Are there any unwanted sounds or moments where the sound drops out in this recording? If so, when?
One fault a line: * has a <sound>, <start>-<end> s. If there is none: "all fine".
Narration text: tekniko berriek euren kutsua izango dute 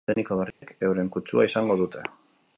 * has a dropout, 0.5-0.6 s